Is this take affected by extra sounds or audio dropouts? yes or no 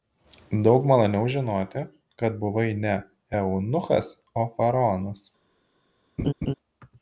yes